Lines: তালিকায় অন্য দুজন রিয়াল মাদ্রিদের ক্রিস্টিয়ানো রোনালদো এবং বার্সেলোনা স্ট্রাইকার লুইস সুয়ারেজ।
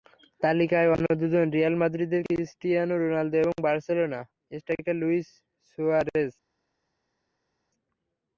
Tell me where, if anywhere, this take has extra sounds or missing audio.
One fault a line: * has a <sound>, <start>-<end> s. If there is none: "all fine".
all fine